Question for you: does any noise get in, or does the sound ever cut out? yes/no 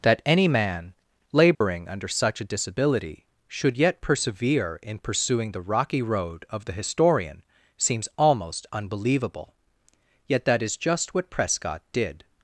yes